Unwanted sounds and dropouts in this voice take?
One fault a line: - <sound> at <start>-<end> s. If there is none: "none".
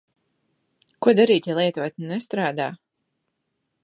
none